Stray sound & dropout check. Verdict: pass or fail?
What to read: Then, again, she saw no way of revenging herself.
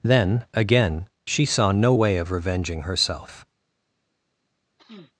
fail